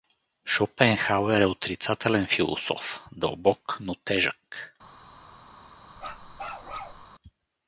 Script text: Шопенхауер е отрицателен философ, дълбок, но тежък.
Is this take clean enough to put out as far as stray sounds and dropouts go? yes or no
no